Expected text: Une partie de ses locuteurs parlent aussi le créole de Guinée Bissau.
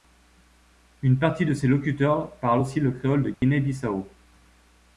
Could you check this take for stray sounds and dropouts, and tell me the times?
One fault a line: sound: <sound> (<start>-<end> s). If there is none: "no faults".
sound: dropout (3.3-3.4 s)